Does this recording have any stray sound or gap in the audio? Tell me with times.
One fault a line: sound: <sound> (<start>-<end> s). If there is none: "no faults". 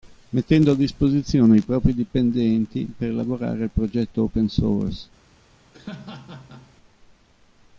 sound: laugh (5.7-6.7 s)